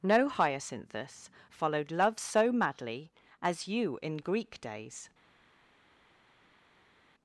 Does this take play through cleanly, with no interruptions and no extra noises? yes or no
yes